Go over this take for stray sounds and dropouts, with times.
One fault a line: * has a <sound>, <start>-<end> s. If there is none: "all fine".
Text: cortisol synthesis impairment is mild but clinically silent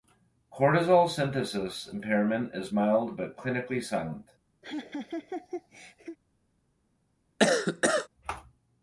* has a laugh, 4.6-6.2 s
* has a cough, 7.4-8.1 s